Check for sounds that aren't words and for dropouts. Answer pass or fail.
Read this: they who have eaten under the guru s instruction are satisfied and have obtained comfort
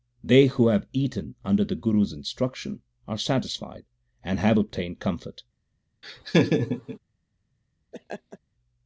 fail